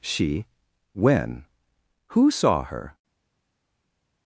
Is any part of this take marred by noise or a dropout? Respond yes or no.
no